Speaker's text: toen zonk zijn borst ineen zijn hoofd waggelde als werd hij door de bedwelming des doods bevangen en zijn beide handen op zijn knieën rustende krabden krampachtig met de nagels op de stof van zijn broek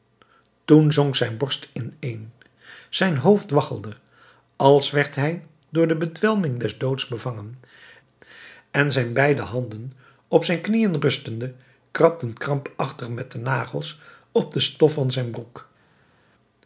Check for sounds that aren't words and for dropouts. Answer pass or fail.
pass